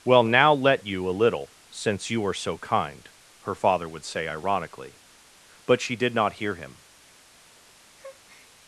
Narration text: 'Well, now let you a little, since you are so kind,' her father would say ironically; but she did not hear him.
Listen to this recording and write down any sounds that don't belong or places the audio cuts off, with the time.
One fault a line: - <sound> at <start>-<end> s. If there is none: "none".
- breath at 8.0-8.5 s